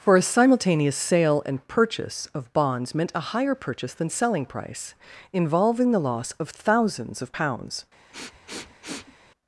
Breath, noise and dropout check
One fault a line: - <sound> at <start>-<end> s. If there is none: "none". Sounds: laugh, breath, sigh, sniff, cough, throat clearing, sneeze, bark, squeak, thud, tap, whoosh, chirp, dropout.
- sniff at 8.1-9.2 s